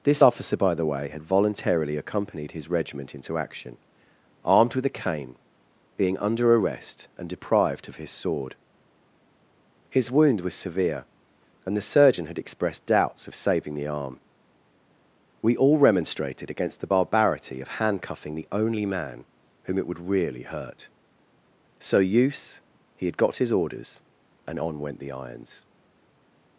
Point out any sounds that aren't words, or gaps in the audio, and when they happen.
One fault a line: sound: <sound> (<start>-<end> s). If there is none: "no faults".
no faults